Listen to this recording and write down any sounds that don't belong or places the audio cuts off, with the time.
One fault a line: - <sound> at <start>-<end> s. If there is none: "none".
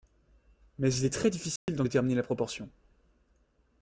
- dropout at 1.6-1.7 s